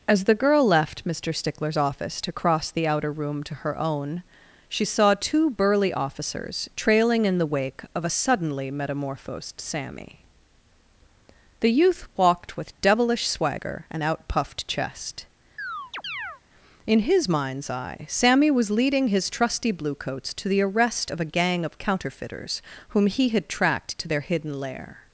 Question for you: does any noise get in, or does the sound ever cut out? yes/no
yes